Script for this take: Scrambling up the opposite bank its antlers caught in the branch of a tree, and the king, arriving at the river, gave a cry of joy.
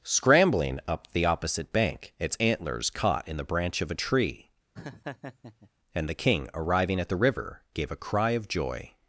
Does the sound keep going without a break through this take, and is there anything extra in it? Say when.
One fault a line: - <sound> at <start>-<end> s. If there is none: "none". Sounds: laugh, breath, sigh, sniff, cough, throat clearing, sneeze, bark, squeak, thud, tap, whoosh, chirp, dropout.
- laugh at 4.8-5.7 s